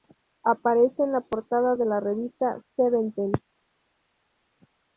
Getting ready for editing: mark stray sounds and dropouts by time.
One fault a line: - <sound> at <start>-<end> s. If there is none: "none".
none